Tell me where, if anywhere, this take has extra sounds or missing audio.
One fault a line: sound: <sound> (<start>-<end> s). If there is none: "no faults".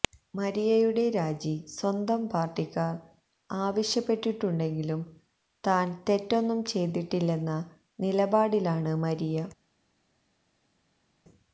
no faults